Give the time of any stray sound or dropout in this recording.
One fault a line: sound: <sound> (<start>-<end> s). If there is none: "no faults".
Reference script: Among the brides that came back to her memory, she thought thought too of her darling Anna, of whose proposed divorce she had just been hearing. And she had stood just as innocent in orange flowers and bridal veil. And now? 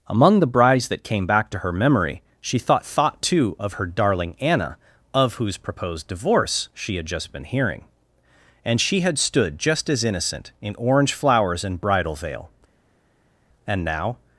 no faults